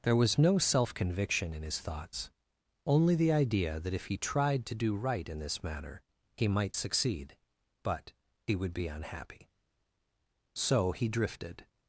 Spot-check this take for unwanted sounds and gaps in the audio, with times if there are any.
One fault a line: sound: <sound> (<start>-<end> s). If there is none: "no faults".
no faults